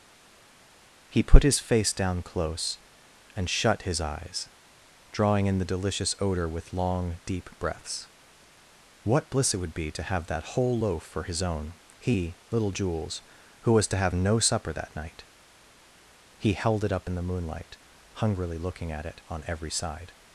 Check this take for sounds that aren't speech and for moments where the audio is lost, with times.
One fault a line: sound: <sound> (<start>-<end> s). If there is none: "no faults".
no faults